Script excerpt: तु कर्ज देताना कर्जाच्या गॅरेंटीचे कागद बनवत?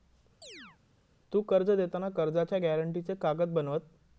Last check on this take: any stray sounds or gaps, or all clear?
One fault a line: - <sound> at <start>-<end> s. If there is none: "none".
- chirp at 0.4-0.8 s